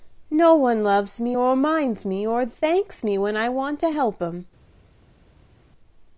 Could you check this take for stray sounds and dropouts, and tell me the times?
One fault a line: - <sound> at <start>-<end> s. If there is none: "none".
none